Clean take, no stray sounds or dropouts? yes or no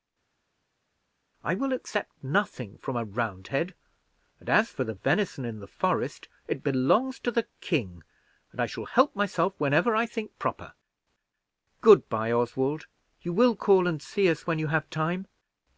yes